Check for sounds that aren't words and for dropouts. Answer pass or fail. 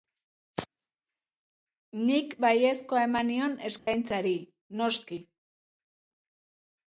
fail